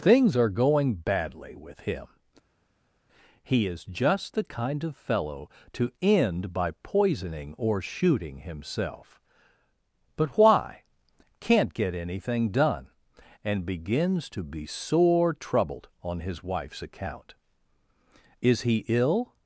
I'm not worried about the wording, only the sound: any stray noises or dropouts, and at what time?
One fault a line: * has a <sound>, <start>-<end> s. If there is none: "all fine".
all fine